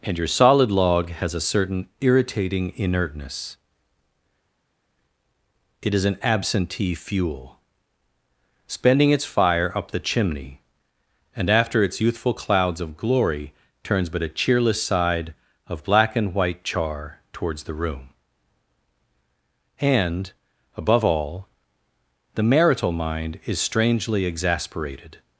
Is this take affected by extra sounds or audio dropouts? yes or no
no